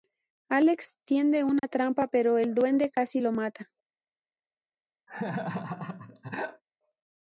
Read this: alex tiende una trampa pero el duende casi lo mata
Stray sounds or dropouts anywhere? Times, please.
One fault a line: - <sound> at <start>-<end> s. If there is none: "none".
- dropout at 1.6-1.6 s
- laugh at 5.1-6.6 s